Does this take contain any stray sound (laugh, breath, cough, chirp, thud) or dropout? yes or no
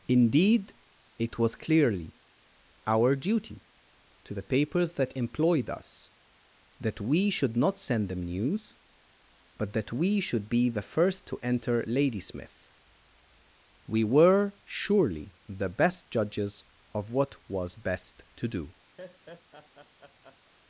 yes